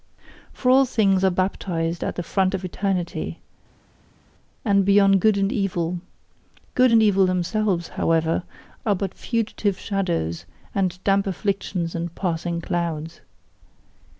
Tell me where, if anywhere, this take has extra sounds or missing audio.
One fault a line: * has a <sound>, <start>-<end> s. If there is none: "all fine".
all fine